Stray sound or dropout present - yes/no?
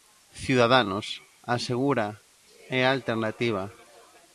no